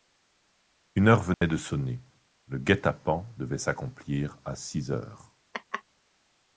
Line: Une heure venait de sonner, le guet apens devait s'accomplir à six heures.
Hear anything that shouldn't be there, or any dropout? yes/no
yes